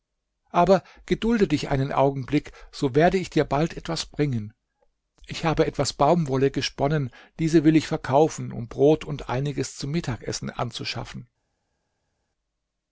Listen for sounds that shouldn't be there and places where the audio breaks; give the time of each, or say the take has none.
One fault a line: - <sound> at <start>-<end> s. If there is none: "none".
none